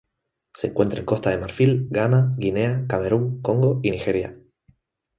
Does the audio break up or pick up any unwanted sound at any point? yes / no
no